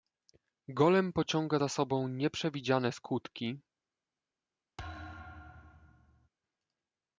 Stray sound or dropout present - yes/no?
yes